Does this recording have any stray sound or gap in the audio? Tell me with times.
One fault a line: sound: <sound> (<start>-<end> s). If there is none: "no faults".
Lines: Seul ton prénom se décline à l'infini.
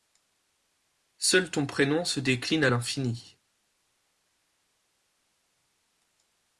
no faults